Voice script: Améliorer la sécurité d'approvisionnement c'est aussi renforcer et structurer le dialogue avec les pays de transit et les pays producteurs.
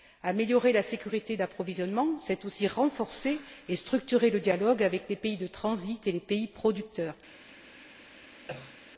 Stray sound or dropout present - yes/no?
yes